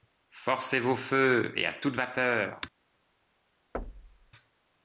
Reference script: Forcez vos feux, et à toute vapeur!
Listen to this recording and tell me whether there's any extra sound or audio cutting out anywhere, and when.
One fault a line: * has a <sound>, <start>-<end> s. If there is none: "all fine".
* has a thud, 3.7-4.3 s